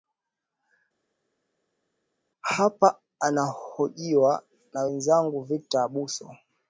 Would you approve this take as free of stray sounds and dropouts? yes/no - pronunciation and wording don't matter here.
yes